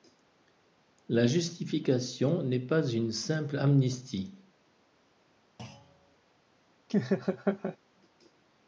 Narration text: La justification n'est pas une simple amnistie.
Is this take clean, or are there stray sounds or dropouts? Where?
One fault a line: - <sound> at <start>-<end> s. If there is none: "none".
- thud at 5.6-6.2 s
- laugh at 6.9-7.8 s